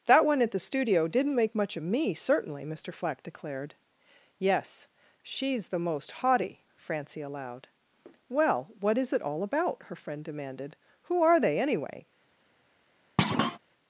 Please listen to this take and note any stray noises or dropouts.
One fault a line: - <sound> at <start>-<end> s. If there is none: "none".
- thud at 13.2-13.6 s